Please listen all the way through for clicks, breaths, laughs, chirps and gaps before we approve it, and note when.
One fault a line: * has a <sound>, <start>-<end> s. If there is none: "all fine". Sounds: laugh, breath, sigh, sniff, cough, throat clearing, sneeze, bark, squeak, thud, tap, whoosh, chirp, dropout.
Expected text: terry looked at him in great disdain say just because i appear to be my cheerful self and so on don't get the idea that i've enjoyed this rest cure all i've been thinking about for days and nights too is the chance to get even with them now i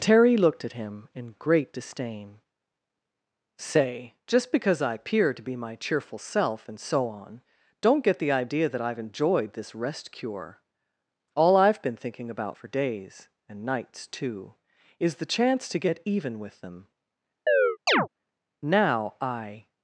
* has a chirp, 17.5-18.1 s